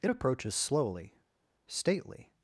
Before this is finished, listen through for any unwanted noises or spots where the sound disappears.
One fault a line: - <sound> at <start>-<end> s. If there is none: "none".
none